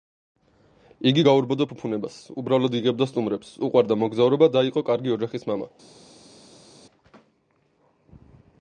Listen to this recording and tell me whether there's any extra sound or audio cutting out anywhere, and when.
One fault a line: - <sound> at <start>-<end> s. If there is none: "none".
none